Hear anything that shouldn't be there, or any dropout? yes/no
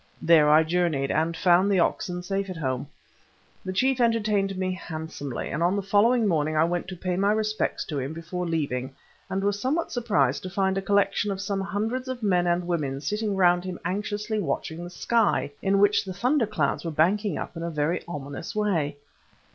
no